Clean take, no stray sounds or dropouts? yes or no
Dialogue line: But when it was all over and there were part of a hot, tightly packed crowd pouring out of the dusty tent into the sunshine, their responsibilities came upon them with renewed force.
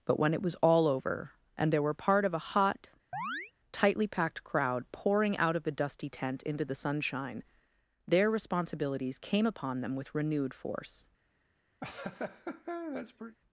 no